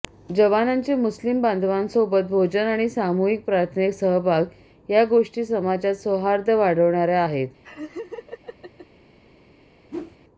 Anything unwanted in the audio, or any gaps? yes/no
yes